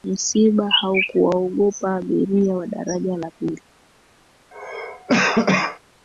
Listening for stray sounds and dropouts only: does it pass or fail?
fail